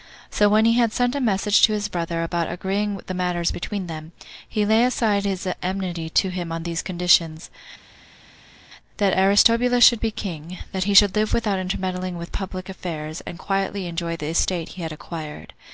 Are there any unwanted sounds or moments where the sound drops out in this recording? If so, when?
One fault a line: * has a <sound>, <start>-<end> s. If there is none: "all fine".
all fine